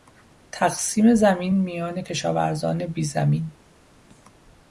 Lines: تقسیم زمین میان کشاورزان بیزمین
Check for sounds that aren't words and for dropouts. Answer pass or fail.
pass